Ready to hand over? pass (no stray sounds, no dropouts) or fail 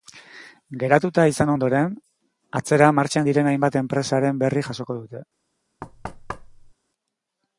fail